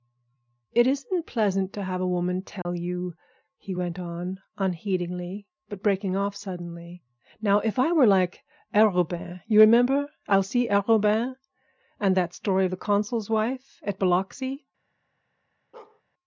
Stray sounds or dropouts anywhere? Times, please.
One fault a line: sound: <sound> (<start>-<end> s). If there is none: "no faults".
sound: dropout (2.6-2.7 s)
sound: bark (15.7-16.0 s)